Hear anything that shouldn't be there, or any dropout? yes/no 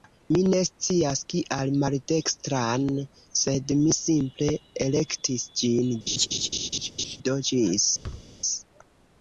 yes